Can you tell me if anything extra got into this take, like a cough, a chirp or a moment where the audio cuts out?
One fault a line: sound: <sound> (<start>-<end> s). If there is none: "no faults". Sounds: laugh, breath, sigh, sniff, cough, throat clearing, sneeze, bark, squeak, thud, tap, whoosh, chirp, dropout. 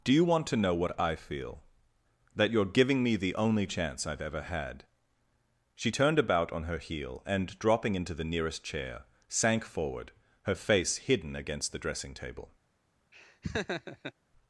sound: laugh (13.1-14.1 s)